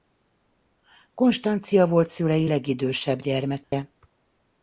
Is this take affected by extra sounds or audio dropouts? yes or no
yes